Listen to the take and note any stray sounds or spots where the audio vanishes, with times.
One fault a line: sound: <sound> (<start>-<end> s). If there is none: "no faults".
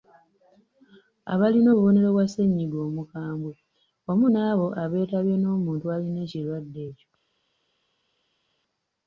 no faults